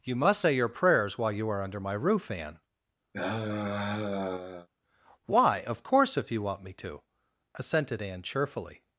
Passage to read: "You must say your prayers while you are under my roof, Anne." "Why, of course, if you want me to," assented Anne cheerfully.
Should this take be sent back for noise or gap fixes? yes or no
yes